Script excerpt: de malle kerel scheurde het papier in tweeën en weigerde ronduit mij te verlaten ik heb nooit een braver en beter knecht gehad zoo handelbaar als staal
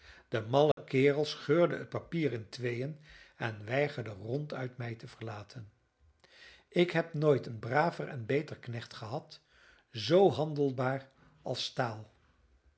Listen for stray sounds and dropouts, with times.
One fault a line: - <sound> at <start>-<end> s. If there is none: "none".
- dropout at 0.7-0.8 s